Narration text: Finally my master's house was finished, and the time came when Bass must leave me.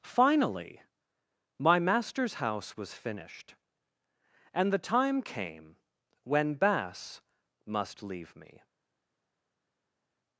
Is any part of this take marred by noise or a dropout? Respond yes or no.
no